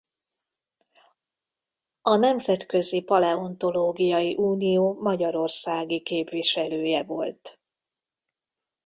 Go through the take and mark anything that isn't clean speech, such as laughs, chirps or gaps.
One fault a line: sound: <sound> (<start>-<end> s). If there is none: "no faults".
no faults